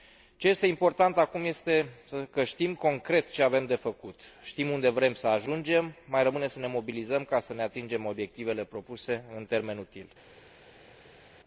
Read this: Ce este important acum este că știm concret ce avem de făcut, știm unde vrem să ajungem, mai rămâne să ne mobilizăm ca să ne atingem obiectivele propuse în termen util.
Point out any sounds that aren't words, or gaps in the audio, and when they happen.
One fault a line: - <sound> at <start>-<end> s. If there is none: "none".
none